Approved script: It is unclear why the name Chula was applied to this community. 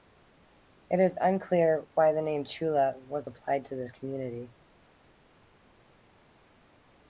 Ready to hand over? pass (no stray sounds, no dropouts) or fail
pass